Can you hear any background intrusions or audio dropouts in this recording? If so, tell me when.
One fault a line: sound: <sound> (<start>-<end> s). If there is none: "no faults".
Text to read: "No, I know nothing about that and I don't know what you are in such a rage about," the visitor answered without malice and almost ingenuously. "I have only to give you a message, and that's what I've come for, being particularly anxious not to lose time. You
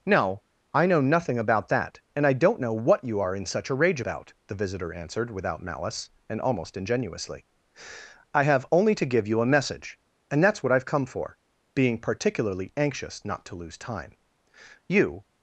no faults